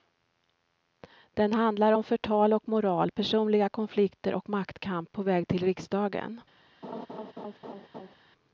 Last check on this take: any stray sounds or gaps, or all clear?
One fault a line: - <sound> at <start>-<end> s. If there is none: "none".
- laugh at 6.8-8.2 s